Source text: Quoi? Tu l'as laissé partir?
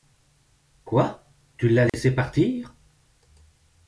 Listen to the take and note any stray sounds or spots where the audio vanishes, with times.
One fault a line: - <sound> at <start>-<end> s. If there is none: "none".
- dropout at 1.9-1.9 s